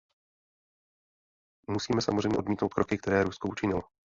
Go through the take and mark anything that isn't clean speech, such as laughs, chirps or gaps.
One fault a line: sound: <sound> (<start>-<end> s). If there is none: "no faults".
no faults